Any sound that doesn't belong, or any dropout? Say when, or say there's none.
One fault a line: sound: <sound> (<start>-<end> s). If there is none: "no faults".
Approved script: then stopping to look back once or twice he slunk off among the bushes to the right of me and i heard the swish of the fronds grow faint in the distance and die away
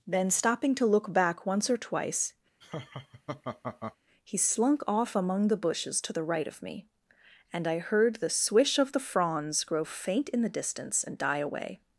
sound: laugh (2.6-4.0 s)